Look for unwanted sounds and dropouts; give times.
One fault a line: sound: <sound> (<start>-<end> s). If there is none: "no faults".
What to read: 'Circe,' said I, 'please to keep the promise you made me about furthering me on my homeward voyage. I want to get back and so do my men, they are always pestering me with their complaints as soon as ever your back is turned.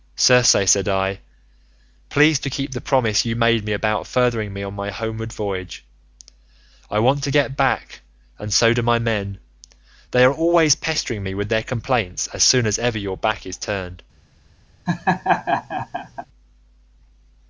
sound: laugh (14.9-16.3 s)